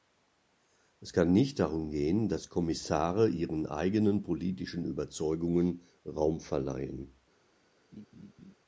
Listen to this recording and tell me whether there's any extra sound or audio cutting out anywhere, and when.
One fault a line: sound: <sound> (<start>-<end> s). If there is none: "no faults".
sound: laugh (7.9-8.6 s)